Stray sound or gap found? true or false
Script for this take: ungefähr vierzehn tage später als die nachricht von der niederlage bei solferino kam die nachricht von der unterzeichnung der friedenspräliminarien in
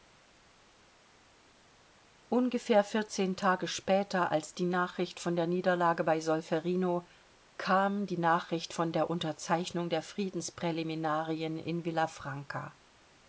false